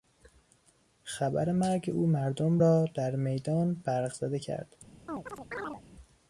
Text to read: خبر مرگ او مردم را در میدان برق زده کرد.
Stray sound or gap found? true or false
true